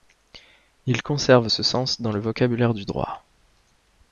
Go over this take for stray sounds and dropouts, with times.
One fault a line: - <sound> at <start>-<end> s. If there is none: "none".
none